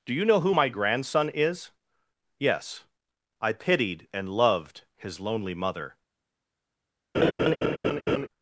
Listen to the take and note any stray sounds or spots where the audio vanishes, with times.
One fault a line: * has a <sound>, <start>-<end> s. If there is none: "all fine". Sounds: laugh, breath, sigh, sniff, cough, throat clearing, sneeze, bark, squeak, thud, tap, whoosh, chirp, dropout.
* has a laugh, 7.1-8.3 s